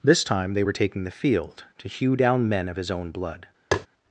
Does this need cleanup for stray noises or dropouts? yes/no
yes